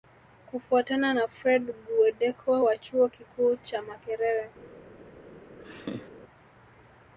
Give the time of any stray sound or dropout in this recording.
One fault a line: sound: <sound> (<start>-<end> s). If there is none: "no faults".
sound: laugh (5.6-6.1 s)